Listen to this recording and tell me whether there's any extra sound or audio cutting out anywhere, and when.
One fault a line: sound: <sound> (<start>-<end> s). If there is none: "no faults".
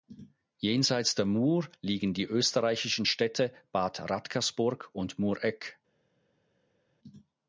no faults